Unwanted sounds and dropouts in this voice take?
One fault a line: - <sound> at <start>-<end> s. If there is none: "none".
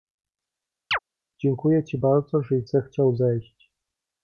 - chirp at 0.9-1.0 s